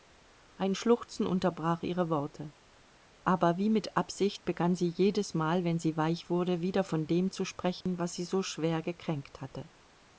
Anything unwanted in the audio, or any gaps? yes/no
yes